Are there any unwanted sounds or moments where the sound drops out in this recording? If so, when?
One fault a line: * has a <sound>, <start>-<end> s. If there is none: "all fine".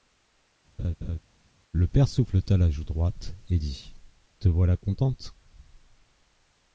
* has a laugh, 0.8-1.2 s